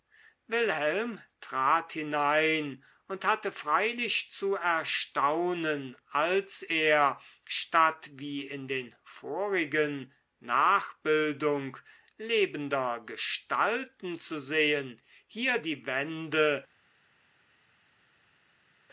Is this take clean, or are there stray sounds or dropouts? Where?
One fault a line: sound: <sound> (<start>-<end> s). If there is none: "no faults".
no faults